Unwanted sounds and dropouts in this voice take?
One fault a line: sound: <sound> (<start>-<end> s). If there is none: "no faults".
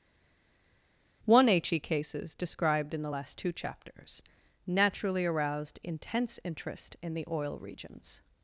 no faults